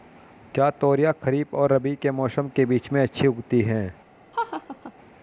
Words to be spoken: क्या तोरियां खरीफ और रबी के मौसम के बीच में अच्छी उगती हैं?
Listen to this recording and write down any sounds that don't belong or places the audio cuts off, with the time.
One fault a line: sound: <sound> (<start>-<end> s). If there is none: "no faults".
sound: laugh (4.3-4.9 s)